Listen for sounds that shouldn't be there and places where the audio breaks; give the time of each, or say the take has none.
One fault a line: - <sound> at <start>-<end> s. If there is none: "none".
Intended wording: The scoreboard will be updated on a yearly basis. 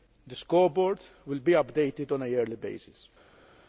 none